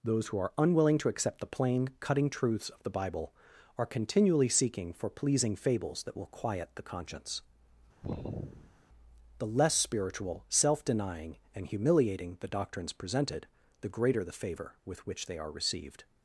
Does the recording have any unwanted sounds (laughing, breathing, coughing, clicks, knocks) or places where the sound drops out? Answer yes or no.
yes